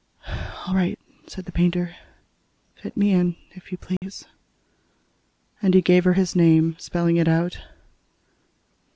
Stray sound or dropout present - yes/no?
yes